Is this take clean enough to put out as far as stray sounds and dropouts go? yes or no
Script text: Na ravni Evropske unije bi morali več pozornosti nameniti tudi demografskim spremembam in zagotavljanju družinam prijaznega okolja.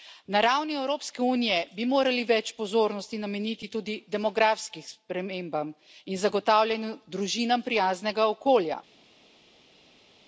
yes